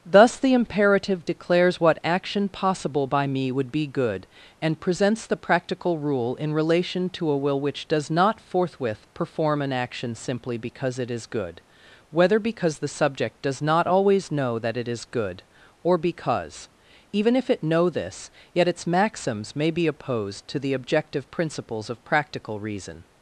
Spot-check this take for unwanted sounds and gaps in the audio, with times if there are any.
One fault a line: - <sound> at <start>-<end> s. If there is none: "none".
none